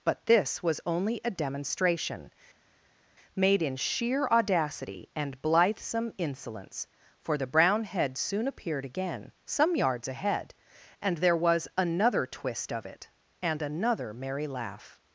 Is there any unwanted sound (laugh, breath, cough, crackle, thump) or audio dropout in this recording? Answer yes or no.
no